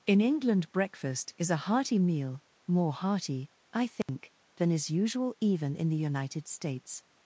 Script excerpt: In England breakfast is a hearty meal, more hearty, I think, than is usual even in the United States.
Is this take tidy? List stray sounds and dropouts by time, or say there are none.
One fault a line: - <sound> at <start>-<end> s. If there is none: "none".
- dropout at 4.0-4.1 s